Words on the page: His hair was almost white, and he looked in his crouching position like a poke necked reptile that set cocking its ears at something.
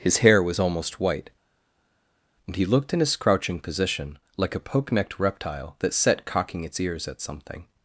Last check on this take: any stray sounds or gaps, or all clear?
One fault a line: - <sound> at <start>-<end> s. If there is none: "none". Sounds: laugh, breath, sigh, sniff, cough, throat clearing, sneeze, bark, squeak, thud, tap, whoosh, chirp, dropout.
none